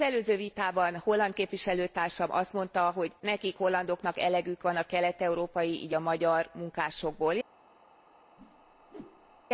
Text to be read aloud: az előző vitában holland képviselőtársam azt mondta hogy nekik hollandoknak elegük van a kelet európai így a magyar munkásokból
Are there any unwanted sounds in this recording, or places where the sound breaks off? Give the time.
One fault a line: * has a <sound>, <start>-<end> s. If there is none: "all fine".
* has a whoosh, 8.4-9.5 s